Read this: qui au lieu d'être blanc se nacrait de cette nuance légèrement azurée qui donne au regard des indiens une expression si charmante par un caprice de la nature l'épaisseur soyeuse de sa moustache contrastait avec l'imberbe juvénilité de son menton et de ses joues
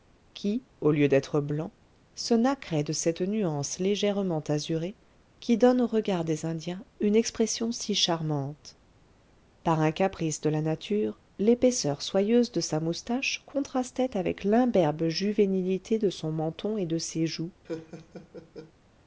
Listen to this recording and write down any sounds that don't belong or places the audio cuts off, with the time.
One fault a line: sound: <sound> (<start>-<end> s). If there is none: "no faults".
sound: laugh (17.6-18.7 s)